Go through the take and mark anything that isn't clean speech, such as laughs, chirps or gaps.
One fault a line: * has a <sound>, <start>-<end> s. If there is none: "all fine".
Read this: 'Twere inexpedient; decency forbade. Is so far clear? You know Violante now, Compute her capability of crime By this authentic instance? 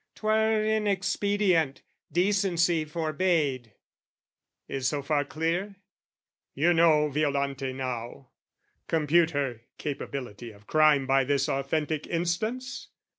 all fine